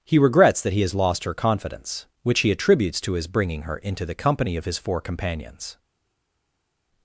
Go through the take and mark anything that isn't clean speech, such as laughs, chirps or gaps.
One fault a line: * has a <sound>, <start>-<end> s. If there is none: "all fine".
all fine